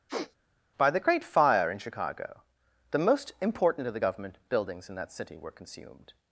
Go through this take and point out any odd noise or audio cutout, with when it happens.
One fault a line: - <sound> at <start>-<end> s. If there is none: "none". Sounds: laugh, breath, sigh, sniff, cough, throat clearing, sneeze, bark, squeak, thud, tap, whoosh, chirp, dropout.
- sniff at 0.1-0.4 s